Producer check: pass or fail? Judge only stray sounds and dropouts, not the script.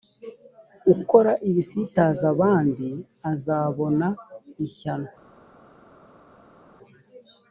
pass